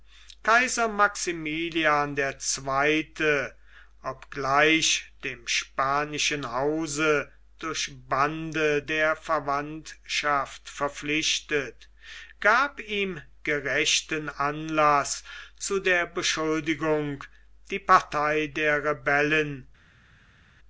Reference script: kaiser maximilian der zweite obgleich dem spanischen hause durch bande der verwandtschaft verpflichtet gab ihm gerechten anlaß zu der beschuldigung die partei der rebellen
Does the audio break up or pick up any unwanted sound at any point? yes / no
no